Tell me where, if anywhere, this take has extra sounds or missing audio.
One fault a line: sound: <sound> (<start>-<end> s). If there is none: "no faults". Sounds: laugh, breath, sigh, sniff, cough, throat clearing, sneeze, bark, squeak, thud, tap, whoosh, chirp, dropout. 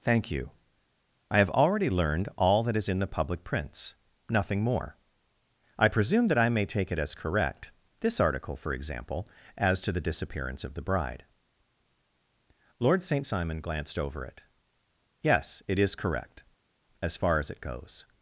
no faults